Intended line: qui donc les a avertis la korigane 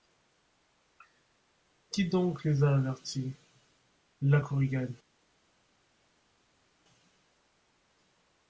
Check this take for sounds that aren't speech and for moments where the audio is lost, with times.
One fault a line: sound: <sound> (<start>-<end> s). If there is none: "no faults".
no faults